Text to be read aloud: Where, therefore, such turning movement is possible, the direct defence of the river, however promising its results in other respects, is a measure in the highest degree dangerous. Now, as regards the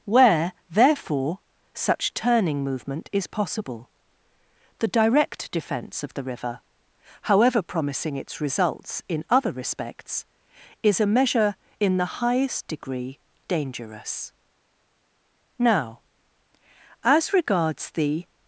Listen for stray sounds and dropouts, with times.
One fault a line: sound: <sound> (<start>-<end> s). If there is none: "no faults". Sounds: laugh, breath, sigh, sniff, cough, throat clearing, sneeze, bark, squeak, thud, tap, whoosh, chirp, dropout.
no faults